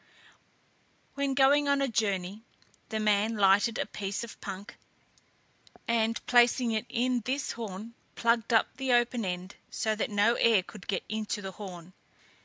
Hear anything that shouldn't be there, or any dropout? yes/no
no